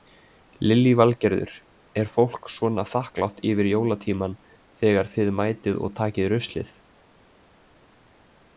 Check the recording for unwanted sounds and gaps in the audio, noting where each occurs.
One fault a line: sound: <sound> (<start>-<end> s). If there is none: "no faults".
no faults